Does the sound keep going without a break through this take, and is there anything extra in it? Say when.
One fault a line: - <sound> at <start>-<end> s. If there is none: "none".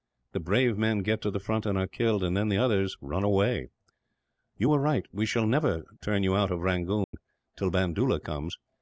- dropout at 7.0-7.1 s